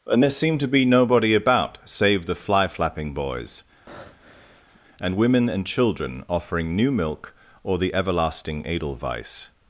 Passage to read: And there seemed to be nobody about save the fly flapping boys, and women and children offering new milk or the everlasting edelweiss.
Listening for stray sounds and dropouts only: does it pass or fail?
fail